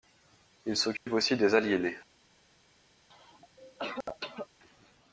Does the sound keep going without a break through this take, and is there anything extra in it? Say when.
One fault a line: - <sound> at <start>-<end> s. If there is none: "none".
- dropout at 1.0-1.1 s
- cough at 3.1-4.5 s